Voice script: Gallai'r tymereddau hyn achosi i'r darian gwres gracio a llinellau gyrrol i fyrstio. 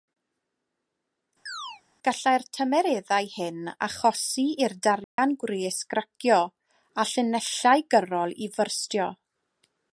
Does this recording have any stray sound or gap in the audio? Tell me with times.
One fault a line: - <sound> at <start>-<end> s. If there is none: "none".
- chirp at 1.5-1.8 s
- dropout at 5.0-5.2 s